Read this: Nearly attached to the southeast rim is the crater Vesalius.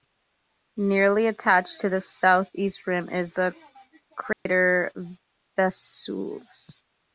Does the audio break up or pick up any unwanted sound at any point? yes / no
yes